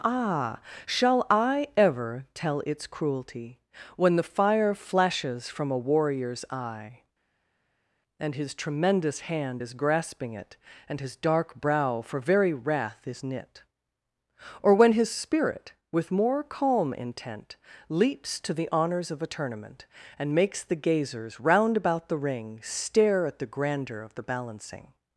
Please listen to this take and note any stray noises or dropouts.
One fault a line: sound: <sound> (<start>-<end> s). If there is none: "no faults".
no faults